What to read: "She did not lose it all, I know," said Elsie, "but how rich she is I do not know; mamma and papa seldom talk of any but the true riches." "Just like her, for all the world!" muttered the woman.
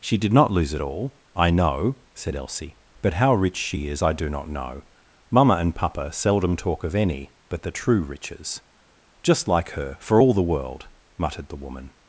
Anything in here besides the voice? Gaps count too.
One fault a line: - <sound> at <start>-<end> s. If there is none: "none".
none